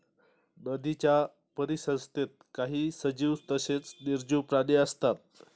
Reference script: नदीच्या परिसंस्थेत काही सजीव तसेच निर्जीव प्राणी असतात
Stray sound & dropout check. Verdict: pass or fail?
pass